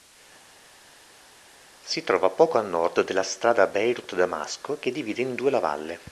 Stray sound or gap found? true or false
false